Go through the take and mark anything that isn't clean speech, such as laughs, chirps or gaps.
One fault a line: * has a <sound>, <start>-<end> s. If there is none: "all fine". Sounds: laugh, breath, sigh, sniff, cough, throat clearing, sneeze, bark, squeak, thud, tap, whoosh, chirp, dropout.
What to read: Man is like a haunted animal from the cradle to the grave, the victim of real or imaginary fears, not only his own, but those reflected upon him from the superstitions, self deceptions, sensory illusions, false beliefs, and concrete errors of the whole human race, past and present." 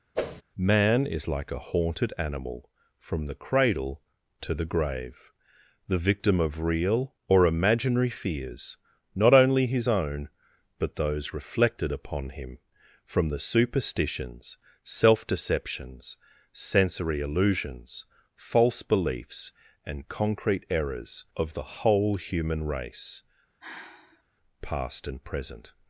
* has a whoosh, 0.1-0.4 s
* has a sigh, 23.6-24.2 s